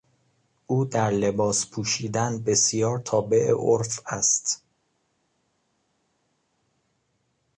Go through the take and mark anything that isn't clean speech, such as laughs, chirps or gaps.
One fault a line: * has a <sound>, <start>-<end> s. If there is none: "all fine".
all fine